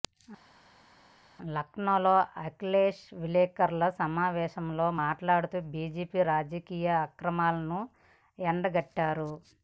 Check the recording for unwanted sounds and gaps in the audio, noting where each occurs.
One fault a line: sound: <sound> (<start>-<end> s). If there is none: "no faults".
no faults